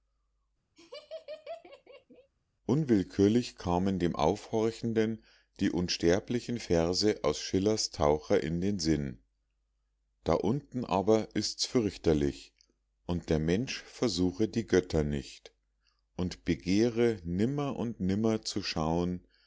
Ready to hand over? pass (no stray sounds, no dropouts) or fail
fail